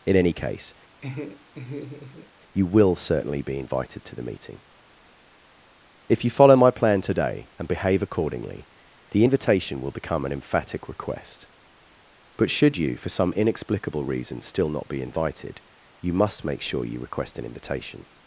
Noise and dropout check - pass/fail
fail